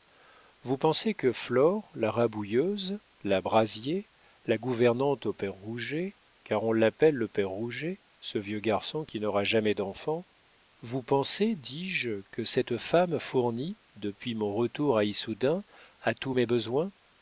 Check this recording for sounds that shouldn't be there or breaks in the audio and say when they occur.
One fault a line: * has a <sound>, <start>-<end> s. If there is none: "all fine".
all fine